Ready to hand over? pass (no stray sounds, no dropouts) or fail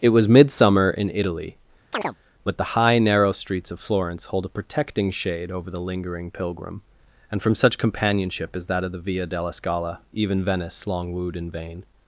fail